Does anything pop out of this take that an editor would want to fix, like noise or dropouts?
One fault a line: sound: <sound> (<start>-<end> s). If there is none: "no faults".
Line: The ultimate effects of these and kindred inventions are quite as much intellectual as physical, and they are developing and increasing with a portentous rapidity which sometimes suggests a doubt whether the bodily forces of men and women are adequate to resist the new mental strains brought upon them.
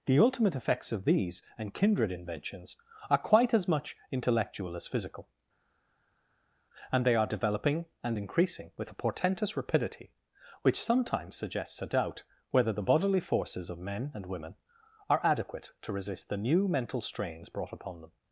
no faults